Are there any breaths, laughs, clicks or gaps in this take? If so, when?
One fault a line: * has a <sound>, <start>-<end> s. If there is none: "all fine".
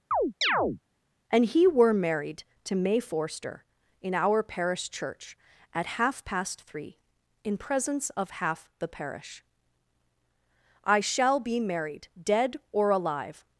* has a chirp, 0.1-0.8 s